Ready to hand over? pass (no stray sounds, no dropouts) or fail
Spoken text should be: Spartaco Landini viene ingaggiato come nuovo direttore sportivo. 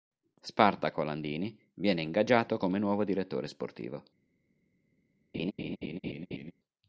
fail